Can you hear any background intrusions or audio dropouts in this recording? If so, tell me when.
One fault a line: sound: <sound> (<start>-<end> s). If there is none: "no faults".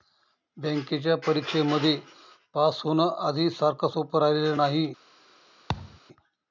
sound: thud (5.7-6.0 s)